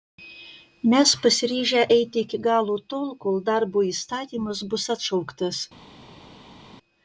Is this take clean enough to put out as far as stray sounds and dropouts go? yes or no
yes